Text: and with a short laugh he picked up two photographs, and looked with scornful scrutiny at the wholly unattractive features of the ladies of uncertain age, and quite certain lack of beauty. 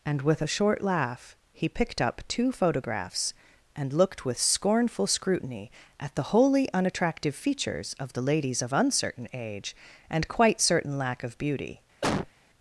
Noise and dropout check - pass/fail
fail